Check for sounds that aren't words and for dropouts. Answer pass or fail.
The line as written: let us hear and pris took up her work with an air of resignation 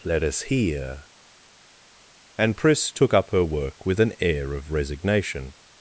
pass